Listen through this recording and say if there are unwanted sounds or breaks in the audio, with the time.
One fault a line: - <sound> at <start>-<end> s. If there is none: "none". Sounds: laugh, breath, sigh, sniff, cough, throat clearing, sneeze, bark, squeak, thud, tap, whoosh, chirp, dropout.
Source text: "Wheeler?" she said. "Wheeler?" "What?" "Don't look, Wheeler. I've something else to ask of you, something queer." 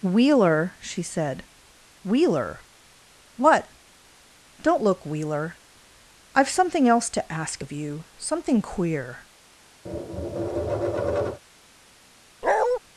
- tap at 9.9-11.4 s
- bark at 12.4-12.8 s